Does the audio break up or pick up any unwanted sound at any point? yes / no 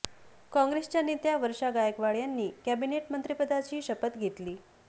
no